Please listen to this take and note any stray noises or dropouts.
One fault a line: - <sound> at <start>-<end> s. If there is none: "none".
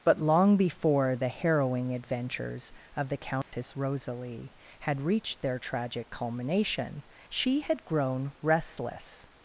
- dropout at 3.4-3.5 s